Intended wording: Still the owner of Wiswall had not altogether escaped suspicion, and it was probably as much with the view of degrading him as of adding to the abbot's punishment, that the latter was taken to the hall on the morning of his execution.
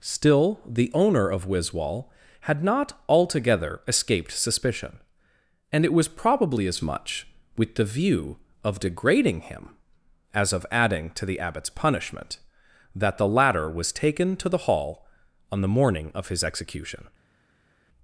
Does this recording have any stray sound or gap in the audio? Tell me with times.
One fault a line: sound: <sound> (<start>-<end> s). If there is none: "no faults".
no faults